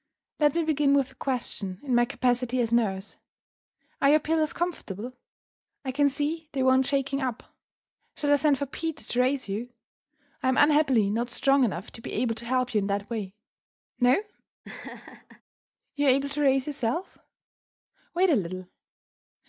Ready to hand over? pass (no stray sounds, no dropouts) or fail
fail